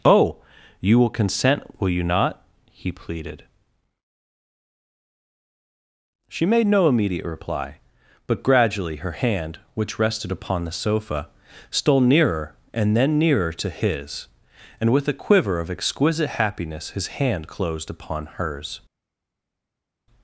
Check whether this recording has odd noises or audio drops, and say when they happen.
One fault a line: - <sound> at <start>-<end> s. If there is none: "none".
none